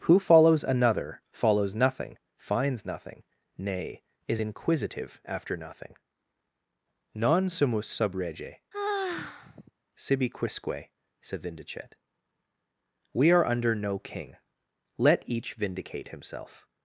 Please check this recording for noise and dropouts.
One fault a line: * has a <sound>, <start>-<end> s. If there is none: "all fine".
* has a sigh, 8.7-9.7 s